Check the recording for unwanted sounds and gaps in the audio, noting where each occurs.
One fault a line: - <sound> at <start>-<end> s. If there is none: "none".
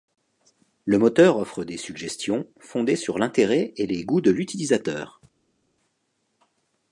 none